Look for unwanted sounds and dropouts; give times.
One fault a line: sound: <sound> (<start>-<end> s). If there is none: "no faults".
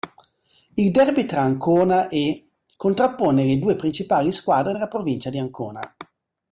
no faults